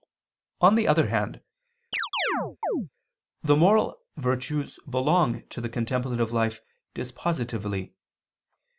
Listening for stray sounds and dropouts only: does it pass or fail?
fail